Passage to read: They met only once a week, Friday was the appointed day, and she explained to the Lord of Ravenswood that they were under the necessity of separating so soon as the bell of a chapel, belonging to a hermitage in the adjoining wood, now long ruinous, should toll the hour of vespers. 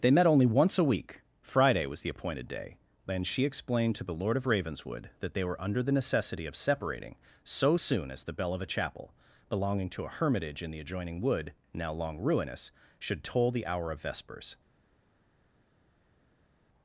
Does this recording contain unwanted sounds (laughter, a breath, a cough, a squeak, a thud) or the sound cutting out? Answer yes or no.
no